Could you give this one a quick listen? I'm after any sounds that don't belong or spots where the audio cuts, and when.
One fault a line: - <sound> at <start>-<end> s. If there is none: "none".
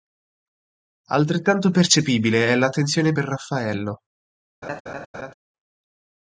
- laugh at 4.6-5.3 s